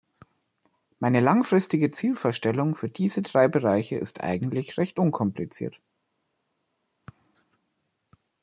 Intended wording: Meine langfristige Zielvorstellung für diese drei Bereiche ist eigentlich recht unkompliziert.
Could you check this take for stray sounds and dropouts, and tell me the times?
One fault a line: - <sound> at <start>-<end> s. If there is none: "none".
none